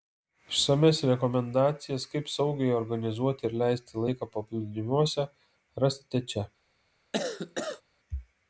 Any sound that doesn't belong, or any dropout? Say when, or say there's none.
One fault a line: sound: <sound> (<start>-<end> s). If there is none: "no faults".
sound: cough (7.1-7.8 s)